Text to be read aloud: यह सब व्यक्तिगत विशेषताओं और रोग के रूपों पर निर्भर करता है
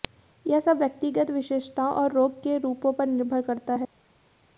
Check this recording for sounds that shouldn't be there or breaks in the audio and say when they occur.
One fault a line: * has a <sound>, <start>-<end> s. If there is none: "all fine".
all fine